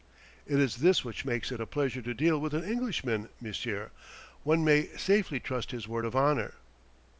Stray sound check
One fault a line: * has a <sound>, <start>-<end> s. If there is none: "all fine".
all fine